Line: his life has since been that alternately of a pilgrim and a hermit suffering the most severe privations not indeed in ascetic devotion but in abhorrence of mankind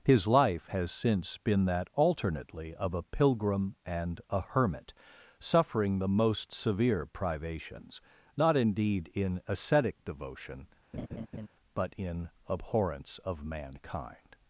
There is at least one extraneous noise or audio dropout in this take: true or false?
true